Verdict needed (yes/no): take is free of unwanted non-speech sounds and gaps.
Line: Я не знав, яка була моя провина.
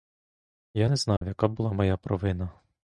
no